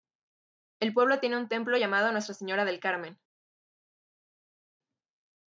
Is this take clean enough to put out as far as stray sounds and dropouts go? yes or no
yes